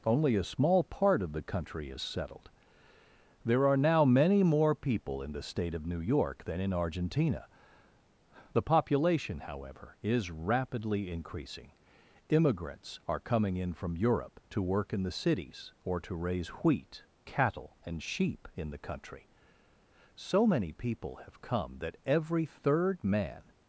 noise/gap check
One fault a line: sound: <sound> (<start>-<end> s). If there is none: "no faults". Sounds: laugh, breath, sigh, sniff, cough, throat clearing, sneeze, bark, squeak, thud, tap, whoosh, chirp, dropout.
no faults